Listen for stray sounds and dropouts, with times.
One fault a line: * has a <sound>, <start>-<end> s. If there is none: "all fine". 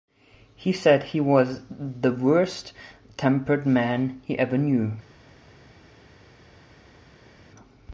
all fine